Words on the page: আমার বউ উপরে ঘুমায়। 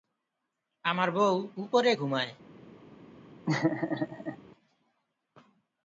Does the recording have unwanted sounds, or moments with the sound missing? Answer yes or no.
yes